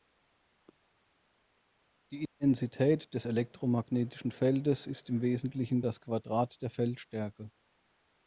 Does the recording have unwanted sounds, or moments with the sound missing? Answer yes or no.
no